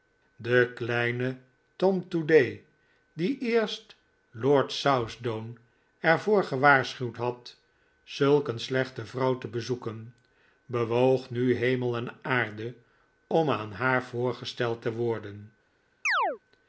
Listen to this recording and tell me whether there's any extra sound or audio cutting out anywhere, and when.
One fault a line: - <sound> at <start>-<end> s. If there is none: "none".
- chirp at 16.1-16.4 s